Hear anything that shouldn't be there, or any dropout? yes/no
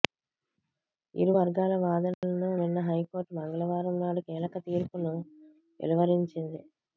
yes